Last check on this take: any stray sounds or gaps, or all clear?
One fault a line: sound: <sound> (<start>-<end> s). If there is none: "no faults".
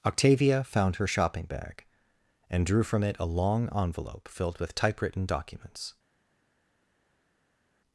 no faults